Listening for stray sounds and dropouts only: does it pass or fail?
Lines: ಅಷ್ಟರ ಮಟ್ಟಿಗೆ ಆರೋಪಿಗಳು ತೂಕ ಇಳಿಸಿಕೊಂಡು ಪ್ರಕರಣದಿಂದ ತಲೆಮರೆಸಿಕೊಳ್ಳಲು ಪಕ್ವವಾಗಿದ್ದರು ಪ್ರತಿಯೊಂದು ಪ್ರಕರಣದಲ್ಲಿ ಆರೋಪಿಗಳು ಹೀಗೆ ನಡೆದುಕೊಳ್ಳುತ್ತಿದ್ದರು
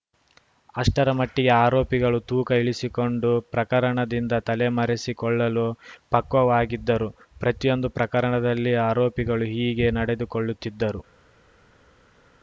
pass